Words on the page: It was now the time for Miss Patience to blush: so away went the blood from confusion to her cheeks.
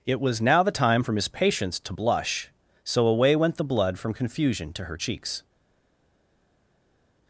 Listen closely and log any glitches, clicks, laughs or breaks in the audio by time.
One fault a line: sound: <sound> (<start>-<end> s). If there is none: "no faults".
no faults